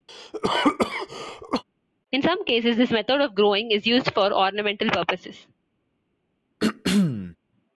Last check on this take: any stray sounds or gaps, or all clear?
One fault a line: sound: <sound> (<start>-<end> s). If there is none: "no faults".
sound: cough (0.1-1.6 s)
sound: throat clearing (6.6-7.4 s)